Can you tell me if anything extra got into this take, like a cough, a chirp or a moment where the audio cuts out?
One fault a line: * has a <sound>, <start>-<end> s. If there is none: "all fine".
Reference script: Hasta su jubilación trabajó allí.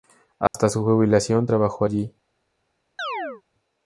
* has a dropout, 0.5-0.5 s
* has a chirp, 3.0-3.4 s